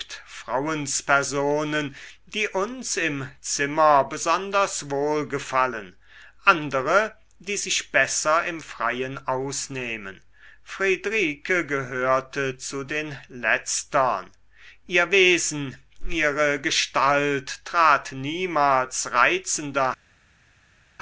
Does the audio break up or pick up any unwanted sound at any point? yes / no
no